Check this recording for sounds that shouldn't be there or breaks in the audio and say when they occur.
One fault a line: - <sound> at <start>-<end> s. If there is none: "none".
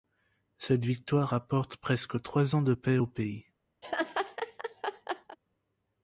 - laugh at 3.8-5.4 s